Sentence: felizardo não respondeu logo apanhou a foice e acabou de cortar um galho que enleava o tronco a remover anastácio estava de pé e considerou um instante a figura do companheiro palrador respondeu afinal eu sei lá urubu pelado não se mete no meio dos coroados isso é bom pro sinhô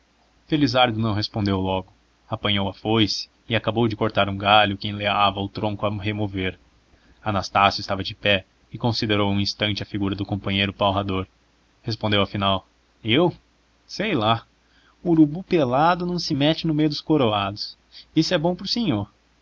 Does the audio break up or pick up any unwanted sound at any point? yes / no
no